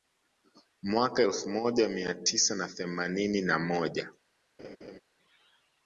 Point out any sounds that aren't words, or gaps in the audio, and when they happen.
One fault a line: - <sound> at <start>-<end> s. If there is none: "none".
- laugh at 4.6-5.0 s